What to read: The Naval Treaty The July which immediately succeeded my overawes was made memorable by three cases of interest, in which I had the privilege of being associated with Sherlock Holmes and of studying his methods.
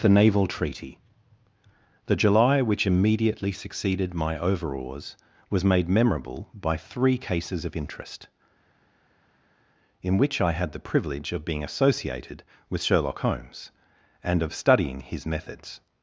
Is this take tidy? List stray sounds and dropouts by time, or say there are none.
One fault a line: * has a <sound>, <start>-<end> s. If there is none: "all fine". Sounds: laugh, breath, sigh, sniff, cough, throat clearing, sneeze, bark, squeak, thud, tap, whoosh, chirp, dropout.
all fine